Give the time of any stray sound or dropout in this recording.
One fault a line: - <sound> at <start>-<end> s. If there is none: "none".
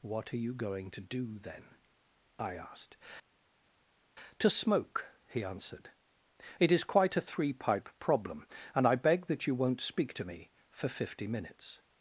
none